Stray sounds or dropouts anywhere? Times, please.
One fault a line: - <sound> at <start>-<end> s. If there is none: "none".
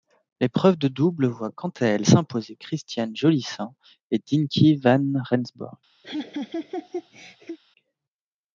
- laugh at 6.0-7.6 s